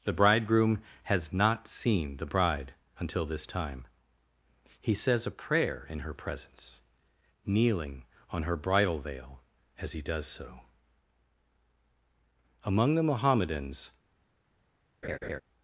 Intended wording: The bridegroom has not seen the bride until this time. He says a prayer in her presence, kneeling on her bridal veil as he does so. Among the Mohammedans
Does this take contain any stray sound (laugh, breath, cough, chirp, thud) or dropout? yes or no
yes